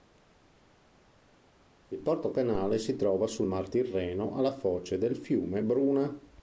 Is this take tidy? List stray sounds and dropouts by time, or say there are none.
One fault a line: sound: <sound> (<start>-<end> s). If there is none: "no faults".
no faults